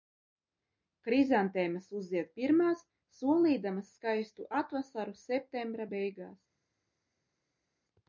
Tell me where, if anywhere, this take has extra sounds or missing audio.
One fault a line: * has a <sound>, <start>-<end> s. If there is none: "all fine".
all fine